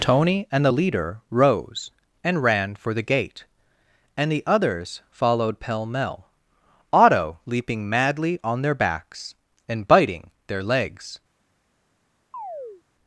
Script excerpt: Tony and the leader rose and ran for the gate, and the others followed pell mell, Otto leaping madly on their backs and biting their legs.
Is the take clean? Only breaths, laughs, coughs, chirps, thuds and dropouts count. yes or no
no